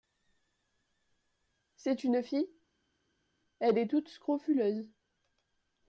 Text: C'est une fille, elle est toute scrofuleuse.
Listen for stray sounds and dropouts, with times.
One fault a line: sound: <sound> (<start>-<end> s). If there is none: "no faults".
no faults